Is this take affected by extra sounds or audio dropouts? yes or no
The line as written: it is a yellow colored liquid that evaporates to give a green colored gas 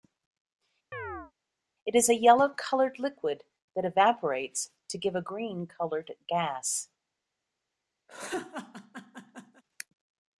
yes